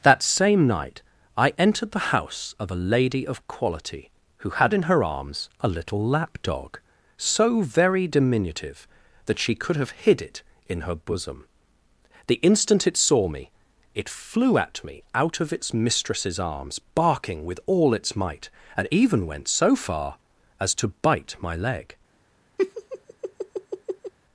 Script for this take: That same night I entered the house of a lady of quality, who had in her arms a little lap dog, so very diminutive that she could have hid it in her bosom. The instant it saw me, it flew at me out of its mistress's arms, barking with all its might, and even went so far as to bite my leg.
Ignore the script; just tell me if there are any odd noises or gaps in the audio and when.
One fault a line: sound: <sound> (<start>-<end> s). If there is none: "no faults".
sound: laugh (22.6-24.1 s)